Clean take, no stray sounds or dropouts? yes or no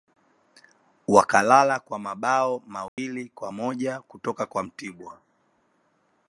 no